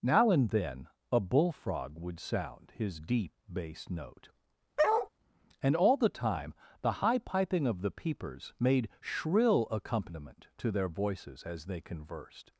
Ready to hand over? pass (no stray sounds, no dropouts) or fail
fail